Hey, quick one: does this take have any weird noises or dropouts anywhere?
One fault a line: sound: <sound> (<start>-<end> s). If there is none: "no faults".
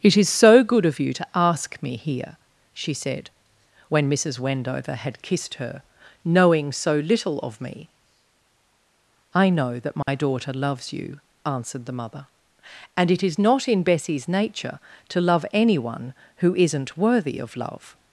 sound: dropout (10.0-10.1 s)